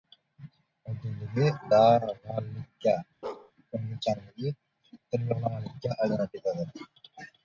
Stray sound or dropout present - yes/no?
yes